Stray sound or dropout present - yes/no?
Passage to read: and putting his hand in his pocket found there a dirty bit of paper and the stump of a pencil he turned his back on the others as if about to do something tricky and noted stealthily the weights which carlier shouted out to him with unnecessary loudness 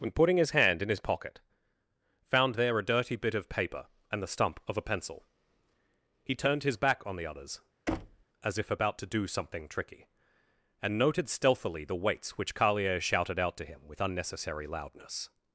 yes